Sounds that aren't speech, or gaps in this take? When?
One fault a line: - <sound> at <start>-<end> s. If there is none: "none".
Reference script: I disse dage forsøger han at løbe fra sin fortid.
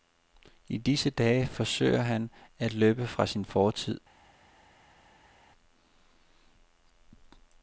none